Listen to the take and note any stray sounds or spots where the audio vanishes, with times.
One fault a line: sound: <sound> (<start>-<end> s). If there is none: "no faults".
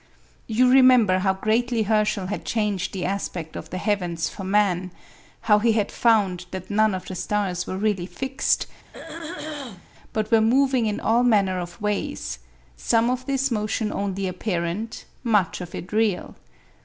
sound: throat clearing (8.9-9.9 s)